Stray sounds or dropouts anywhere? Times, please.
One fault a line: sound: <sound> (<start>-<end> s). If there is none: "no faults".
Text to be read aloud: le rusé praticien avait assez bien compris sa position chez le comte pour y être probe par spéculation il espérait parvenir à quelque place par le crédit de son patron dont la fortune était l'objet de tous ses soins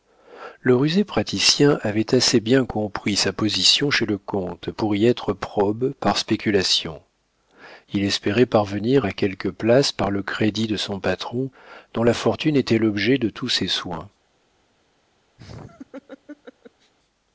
sound: laugh (15.4-16.9 s)